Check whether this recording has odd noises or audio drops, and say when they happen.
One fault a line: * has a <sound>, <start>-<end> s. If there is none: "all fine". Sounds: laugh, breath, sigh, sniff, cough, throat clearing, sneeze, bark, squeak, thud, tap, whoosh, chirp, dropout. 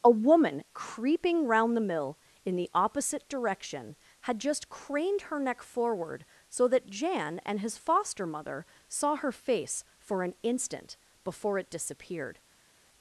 all fine